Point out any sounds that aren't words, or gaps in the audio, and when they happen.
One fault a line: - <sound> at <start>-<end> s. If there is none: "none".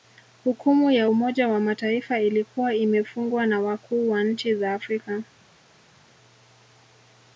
none